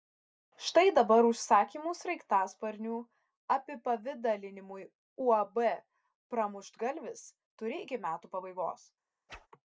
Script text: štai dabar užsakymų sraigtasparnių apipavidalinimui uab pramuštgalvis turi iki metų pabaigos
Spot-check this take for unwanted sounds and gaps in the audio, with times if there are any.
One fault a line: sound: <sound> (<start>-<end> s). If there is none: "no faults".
sound: whoosh (9.3-9.5 s)